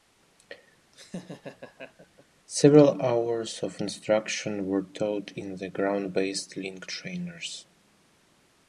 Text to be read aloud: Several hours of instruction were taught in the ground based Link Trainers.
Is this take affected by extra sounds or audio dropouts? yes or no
yes